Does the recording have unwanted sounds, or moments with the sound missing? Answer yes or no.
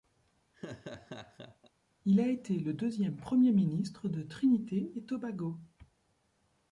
yes